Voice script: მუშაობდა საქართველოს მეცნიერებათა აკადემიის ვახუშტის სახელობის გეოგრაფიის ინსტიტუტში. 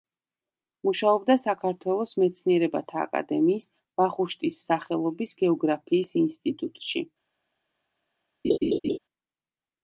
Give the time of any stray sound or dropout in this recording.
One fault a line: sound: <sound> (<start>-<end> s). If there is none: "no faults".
sound: laugh (8.4-9.0 s)